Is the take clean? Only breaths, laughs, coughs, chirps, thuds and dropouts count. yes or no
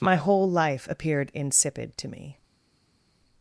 yes